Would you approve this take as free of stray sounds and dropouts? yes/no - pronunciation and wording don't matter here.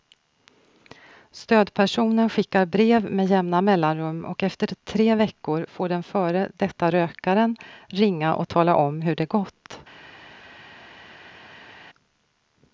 yes